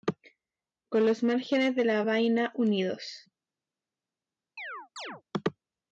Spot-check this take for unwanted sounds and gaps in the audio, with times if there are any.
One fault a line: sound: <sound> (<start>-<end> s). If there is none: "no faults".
sound: chirp (4.6-5.2 s)